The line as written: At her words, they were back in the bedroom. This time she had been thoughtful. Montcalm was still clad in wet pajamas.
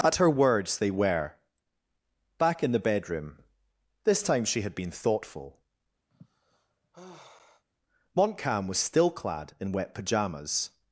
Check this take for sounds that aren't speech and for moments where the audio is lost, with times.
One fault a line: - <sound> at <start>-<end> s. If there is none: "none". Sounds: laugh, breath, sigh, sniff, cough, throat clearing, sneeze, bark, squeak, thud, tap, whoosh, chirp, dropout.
- sigh at 6.1-7.6 s